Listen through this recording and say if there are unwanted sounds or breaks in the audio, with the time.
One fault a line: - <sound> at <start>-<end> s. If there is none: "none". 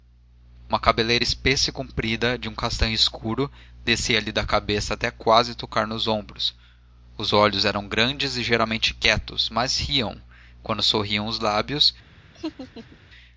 - laugh at 12.3-13.0 s